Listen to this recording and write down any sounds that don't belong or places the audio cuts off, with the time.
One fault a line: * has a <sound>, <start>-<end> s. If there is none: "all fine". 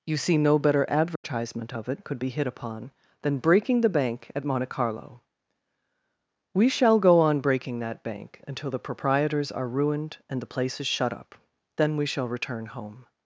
* has a dropout, 1.2-1.2 s